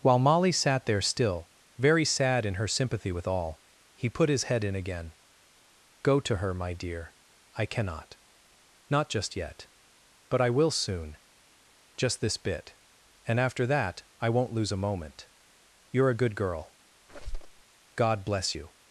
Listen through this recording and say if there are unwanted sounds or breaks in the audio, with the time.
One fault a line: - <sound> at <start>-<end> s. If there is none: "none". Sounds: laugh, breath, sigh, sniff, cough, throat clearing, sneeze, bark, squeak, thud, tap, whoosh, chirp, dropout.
- squeak at 17.1-17.6 s